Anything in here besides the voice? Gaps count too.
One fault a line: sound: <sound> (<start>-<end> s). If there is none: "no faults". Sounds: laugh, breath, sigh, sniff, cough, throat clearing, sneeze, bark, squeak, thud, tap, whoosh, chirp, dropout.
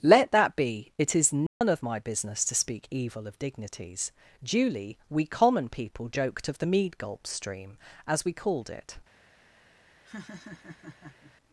sound: dropout (1.5-1.6 s)
sound: laugh (10.0-11.3 s)